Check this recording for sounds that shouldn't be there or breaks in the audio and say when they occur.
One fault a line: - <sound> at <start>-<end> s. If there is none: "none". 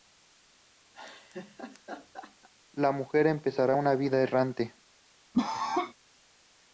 - laugh at 0.9-2.5 s
- cough at 5.3-5.9 s